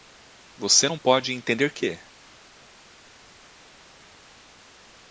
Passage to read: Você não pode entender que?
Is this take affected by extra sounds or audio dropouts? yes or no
no